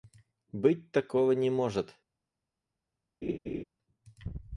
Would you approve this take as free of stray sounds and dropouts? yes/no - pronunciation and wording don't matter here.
no